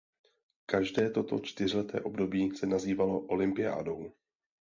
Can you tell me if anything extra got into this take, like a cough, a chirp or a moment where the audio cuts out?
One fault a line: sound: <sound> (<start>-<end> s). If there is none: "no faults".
no faults